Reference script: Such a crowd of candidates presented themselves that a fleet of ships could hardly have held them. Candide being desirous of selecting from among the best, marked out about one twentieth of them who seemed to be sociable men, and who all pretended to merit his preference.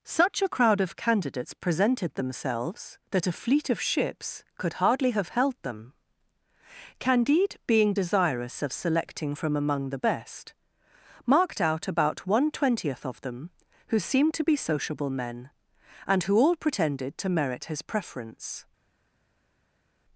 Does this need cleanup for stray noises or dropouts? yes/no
no